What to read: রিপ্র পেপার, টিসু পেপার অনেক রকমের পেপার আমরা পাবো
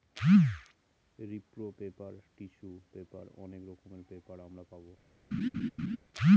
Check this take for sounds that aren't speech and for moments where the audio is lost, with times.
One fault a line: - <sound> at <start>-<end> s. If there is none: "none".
- laugh at 5.3-6.0 s